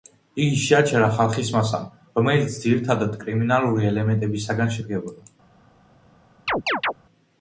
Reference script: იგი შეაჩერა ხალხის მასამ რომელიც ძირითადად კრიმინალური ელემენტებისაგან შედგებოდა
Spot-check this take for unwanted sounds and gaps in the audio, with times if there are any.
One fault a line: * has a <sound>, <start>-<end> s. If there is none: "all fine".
* has a chirp, 6.5-6.9 s